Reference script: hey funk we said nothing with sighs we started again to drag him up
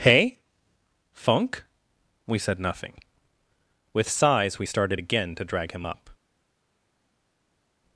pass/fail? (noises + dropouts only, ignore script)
pass